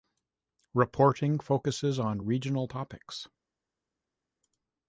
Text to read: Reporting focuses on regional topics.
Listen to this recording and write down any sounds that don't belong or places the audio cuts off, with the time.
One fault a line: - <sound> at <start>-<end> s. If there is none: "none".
none